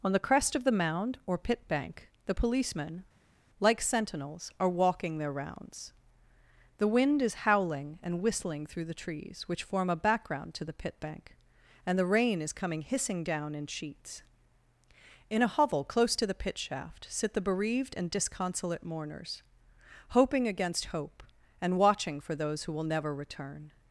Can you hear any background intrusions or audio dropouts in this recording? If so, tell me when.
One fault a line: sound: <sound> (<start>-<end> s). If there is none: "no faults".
no faults